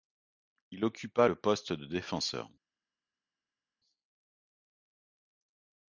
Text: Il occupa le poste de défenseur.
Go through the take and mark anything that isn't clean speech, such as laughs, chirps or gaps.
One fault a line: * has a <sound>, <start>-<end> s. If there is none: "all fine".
all fine